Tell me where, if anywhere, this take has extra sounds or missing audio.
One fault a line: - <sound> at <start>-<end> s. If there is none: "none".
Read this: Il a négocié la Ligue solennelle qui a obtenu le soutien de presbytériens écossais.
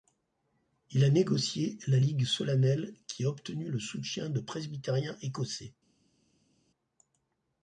none